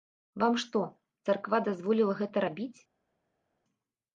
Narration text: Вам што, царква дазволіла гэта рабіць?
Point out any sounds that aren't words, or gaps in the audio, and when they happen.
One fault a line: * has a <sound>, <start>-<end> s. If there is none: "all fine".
all fine